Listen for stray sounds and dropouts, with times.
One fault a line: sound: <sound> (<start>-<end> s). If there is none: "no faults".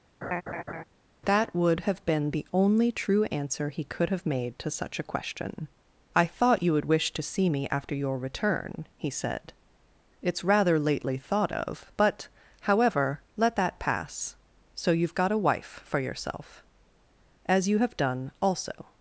sound: laugh (0.2-0.8 s)